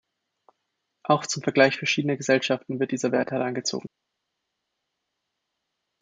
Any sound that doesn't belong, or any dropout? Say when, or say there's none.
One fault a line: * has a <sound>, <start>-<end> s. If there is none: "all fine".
all fine